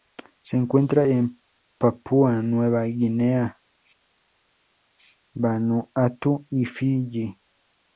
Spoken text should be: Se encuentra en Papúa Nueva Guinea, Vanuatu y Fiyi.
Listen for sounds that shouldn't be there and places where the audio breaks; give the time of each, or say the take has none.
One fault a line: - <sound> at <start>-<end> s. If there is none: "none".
none